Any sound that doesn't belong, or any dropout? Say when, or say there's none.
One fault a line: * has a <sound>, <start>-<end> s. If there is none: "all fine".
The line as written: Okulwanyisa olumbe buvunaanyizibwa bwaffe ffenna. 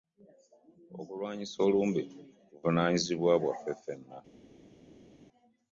all fine